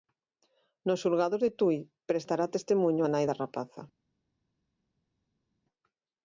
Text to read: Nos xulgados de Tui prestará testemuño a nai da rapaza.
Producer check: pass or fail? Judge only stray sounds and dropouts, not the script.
pass